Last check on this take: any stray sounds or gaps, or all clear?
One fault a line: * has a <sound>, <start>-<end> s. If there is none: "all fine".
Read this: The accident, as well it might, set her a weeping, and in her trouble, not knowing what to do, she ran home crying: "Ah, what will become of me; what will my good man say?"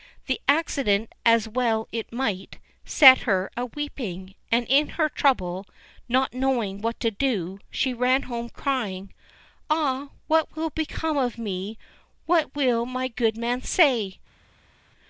all fine